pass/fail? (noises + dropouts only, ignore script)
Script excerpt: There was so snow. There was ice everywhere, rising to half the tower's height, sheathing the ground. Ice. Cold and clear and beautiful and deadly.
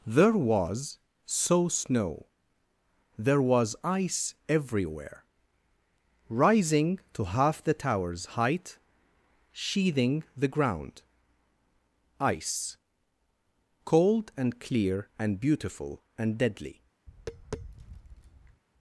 fail